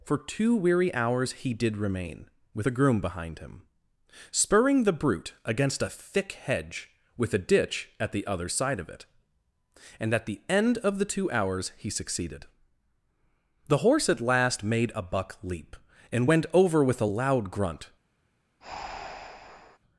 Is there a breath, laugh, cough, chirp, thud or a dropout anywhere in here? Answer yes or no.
yes